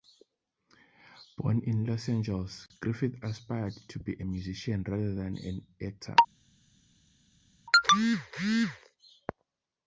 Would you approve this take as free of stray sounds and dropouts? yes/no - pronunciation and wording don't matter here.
yes